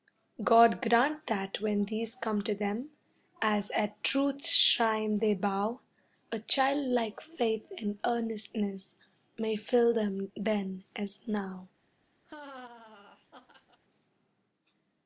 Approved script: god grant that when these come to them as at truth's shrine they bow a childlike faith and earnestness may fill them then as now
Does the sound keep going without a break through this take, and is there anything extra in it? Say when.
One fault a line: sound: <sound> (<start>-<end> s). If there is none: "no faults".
sound: laugh (12.2-13.8 s)